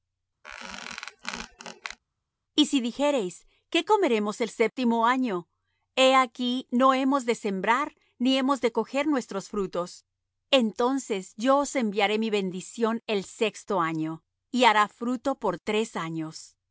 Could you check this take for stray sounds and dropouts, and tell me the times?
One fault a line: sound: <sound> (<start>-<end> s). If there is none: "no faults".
sound: squeak (0.4-2.0 s)